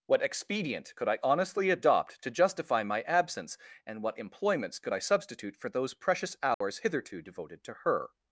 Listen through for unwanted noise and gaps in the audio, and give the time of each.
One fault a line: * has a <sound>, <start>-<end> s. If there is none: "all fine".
* has a dropout, 6.5-6.6 s